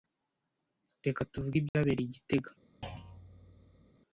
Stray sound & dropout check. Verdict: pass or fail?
fail